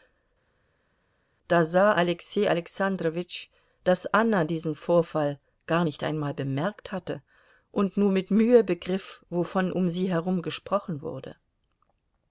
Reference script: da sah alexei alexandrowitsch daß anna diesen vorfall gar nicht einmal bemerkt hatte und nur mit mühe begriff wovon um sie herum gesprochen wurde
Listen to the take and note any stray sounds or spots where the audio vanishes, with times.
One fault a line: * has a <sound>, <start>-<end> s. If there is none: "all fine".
all fine